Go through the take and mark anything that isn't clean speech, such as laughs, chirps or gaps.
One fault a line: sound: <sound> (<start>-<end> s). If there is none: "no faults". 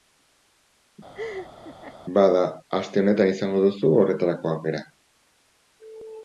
sound: laugh (1.1-2.0 s)